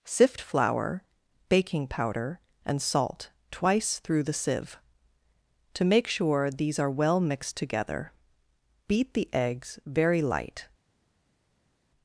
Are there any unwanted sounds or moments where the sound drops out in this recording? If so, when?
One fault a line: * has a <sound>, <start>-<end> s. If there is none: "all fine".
all fine